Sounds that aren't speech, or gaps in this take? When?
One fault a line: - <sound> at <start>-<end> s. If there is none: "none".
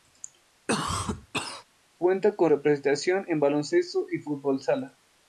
- cough at 0.7-1.6 s